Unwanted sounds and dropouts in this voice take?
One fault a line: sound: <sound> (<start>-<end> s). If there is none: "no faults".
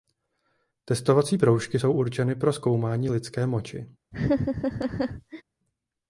sound: laugh (4.1-5.4 s)